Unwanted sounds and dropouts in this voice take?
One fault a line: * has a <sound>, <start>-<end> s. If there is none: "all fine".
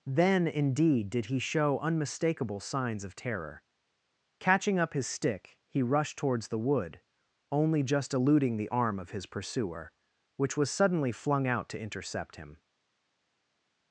all fine